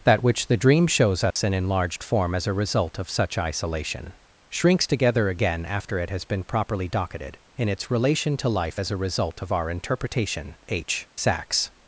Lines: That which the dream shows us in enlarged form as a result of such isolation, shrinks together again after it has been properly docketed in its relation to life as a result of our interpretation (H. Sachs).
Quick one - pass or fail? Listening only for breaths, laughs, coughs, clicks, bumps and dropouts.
fail